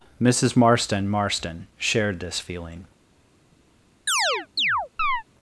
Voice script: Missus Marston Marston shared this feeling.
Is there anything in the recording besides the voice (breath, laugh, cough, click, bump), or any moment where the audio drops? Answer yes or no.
yes